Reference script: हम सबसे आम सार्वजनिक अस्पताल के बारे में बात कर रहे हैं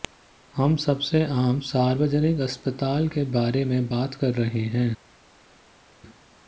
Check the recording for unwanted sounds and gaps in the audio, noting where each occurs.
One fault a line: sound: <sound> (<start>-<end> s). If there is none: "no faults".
no faults